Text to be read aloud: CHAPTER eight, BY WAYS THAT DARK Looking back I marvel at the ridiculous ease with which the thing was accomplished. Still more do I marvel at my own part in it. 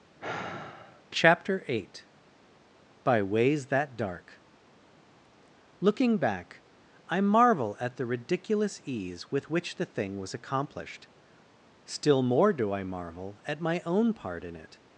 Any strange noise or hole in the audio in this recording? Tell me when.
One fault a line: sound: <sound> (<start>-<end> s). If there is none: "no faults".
sound: sigh (0.2-1.0 s)